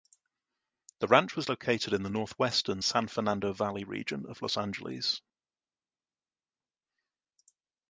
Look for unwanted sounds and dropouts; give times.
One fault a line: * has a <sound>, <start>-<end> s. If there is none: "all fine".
all fine